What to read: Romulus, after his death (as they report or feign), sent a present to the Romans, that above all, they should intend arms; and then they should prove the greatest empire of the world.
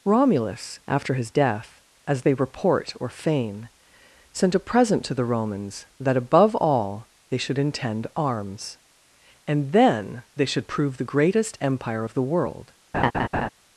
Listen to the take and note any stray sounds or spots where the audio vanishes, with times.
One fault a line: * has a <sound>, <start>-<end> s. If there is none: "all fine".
* has a laugh, 12.9-13.5 s